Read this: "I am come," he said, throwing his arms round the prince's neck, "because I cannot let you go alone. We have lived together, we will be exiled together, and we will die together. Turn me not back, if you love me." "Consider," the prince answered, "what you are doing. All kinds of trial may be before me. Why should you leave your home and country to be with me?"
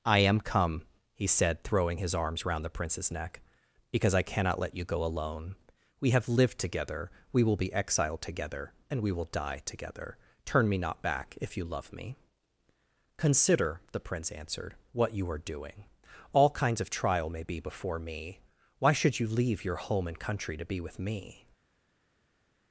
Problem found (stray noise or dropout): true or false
false